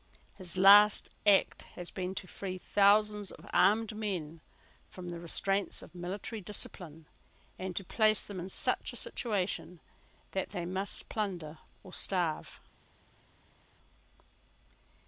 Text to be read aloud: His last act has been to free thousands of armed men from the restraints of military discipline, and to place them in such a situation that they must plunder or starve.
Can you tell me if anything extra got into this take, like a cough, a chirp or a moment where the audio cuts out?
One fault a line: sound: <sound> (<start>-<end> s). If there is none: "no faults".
no faults